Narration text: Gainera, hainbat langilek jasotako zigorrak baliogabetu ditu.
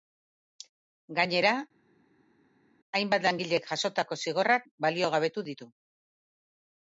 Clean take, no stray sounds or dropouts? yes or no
yes